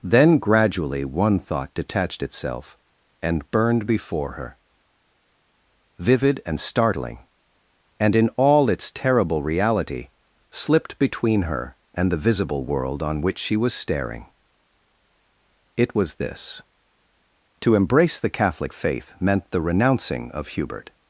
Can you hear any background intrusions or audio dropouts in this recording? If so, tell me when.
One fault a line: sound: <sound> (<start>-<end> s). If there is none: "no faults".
no faults